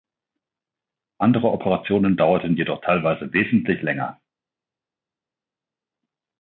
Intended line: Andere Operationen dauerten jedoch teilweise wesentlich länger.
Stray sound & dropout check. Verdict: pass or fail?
pass